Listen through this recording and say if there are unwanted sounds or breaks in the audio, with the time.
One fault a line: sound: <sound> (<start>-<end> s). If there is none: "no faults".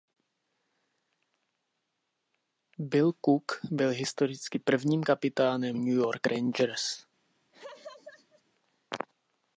sound: laugh (7.5-8.4 s)